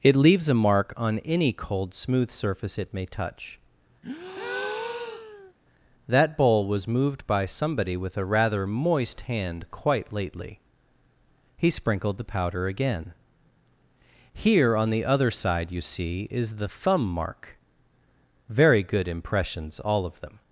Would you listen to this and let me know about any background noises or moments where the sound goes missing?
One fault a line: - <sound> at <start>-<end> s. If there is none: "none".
- breath at 4.0-5.5 s